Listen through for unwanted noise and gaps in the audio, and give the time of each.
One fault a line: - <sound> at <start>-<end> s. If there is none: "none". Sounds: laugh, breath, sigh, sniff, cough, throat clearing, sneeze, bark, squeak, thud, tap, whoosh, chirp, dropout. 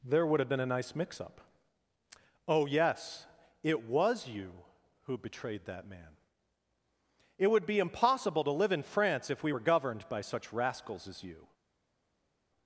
none